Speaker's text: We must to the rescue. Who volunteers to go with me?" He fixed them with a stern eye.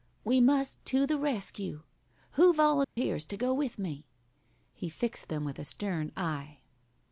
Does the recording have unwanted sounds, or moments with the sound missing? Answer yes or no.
yes